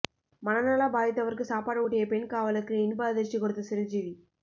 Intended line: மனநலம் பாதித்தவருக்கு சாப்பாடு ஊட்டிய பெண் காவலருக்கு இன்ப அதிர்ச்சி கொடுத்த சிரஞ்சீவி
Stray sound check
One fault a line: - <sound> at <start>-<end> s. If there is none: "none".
none